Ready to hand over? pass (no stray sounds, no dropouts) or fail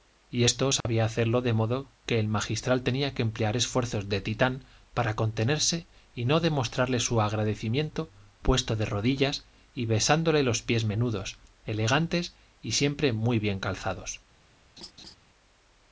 fail